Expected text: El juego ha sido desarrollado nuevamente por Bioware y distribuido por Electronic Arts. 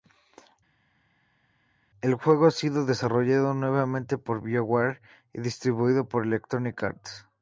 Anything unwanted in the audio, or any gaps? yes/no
no